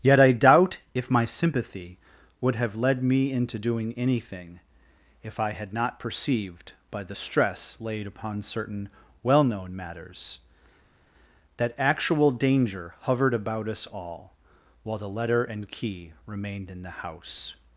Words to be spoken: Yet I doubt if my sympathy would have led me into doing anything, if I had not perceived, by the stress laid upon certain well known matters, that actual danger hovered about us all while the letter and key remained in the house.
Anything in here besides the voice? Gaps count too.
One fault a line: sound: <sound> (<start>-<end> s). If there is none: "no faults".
no faults